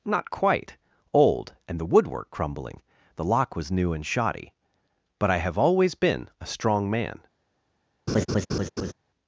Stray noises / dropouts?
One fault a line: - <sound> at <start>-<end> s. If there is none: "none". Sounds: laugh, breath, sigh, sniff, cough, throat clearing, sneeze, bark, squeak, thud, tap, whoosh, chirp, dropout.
- laugh at 8.1-8.9 s